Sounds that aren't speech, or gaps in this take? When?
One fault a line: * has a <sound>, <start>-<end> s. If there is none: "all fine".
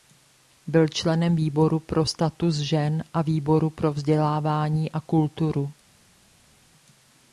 all fine